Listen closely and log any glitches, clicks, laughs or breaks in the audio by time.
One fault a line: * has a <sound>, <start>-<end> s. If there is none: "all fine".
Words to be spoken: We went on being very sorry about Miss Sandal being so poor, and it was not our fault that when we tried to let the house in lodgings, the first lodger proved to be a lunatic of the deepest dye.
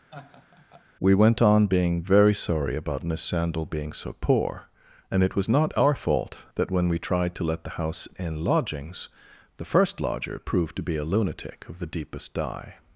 * has a laugh, 0.1-0.9 s